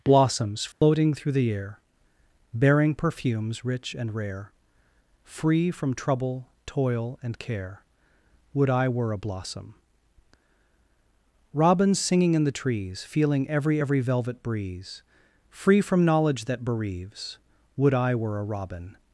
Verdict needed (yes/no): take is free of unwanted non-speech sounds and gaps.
no